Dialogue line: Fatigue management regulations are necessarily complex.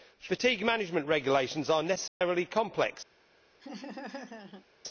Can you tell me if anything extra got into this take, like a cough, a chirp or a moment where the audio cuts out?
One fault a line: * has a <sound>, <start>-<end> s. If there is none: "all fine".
* has a dropout, 2.1-2.2 s
* has a laugh, 3.6-4.7 s